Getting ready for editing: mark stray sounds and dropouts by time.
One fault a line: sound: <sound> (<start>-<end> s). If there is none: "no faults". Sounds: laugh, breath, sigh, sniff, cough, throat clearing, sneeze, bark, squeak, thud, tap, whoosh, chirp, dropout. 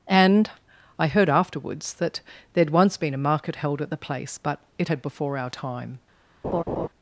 sound: laugh (6.4-6.9 s)